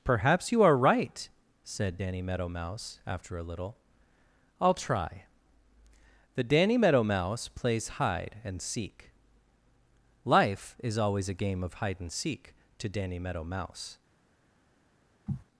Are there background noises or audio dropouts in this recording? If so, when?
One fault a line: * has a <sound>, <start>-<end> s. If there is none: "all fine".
* has a sniff, 15.3-15.4 s